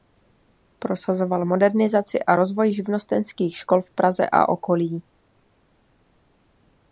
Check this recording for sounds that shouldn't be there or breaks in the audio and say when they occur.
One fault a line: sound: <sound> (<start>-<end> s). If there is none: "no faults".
no faults